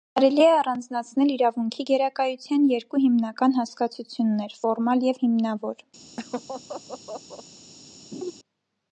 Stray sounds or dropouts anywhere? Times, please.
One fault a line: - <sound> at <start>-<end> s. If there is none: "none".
- laugh at 6.2-7.4 s
- laugh at 8.1-8.3 s